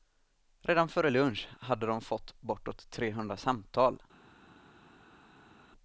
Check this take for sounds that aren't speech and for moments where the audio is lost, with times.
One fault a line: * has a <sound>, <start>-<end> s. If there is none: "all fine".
all fine